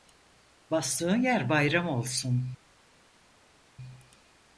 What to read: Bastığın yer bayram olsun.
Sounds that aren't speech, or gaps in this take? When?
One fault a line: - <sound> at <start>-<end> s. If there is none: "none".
none